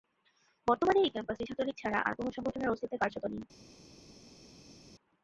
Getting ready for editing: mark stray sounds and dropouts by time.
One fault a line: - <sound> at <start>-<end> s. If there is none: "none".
none